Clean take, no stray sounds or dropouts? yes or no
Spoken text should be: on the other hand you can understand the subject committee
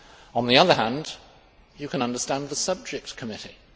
yes